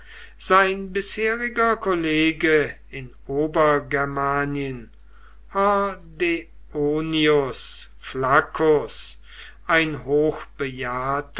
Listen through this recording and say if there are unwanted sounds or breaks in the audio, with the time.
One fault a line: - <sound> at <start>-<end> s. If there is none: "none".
none